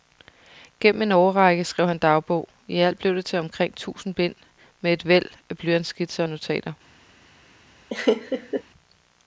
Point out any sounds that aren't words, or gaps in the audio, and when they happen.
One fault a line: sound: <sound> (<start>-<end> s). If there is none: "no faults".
sound: laugh (7.9-8.6 s)